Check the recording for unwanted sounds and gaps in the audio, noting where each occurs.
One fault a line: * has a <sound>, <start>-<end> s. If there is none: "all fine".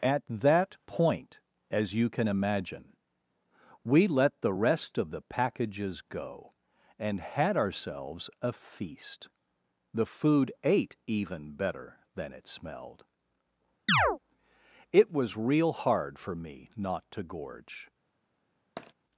* has a chirp, 13.9-14.2 s
* has a tap, 18.8-18.9 s